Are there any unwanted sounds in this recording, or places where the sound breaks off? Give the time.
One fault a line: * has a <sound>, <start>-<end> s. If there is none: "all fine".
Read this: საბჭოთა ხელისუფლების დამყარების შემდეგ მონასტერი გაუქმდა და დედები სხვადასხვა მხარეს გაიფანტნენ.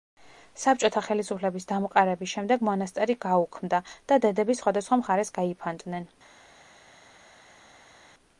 all fine